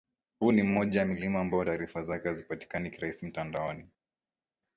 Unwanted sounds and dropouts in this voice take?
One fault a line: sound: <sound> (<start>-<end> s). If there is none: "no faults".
no faults